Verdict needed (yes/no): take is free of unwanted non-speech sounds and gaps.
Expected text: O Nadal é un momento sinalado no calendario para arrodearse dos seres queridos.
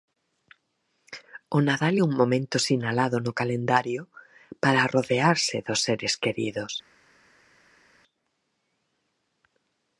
yes